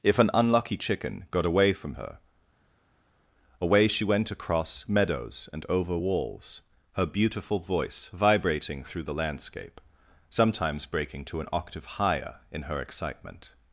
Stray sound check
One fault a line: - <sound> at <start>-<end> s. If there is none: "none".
none